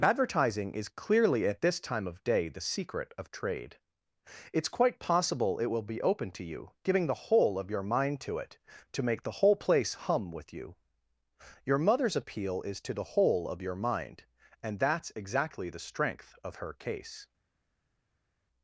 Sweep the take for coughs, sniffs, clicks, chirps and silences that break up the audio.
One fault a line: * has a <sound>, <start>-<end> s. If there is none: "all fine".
all fine